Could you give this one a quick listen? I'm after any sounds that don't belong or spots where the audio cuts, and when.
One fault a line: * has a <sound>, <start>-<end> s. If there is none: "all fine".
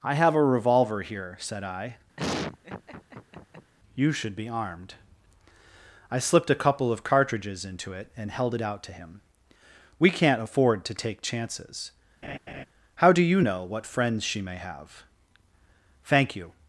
* has a laugh, 2.2-3.7 s
* has a laugh, 12.2-12.7 s